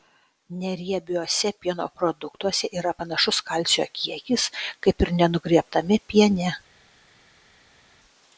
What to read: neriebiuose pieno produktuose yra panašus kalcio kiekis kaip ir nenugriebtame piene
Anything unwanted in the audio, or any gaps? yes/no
no